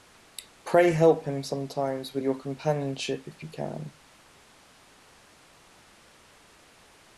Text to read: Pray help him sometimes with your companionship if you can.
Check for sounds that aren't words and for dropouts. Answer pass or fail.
pass